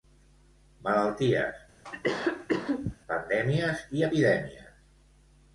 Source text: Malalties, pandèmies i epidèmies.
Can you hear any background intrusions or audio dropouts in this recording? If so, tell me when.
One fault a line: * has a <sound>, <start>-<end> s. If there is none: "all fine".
* has a cough, 1.8-3.0 s